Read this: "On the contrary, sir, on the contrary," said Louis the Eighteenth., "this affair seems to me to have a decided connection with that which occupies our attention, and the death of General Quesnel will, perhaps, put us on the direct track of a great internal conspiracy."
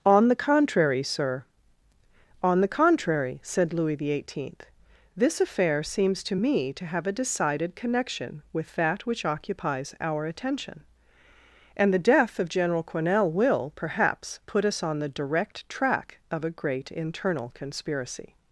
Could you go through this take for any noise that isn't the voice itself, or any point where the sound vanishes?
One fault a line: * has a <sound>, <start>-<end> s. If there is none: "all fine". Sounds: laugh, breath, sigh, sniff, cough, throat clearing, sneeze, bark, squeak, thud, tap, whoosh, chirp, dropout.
all fine